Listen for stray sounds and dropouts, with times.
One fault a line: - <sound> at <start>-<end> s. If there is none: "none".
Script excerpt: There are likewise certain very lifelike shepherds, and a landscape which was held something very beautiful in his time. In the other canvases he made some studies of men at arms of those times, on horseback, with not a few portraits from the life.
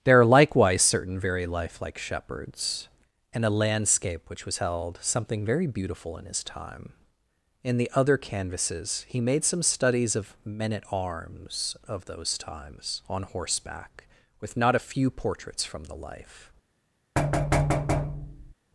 - thud at 17.2-18.5 s